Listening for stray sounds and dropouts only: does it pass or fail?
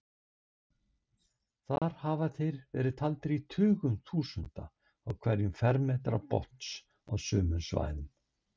fail